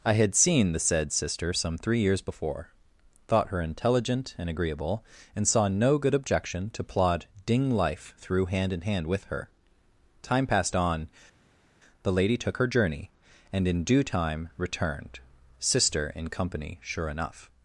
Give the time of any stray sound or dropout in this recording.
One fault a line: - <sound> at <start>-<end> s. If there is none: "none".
none